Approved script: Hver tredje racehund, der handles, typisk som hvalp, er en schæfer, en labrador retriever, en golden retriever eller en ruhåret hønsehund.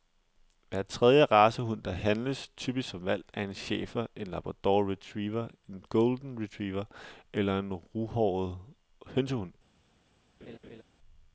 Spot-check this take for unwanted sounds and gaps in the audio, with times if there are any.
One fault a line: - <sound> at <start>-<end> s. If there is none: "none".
- laugh at 10.4-10.8 s